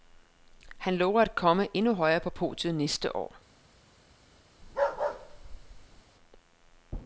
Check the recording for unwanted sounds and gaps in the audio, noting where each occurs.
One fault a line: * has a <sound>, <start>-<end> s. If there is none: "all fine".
* has a bark, 4.6-6.0 s